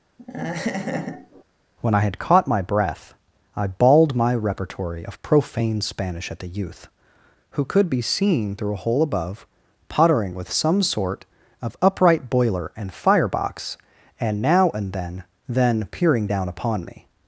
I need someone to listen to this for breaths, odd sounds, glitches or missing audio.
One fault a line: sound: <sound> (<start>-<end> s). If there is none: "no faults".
sound: laugh (0.2-1.4 s)